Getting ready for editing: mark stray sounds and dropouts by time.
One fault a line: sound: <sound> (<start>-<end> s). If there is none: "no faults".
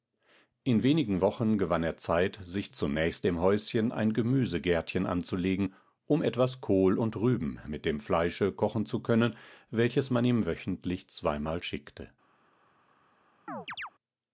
sound: chirp (13.5-13.9 s)